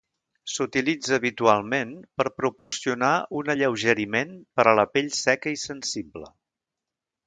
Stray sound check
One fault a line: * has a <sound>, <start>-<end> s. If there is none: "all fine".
* has a dropout, 2.6-2.7 s